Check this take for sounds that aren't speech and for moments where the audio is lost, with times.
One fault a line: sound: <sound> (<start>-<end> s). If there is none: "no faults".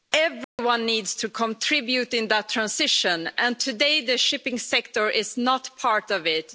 sound: dropout (0.4-0.6 s)